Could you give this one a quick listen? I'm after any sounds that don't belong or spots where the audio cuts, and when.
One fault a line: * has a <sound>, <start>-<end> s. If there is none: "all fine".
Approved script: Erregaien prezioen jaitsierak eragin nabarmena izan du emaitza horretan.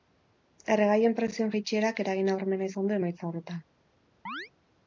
* has a chirp, 4.3-4.5 s